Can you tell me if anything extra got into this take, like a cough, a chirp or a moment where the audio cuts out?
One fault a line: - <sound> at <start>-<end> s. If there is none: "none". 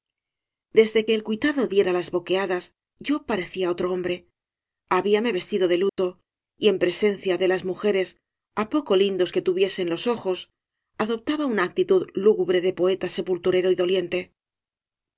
- dropout at 5.9-6.0 s